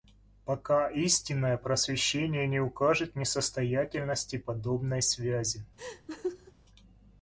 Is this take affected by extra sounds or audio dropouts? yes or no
yes